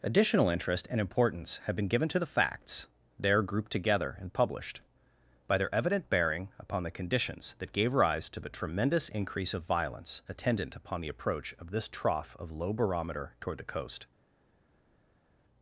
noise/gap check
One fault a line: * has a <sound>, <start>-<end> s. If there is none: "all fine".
all fine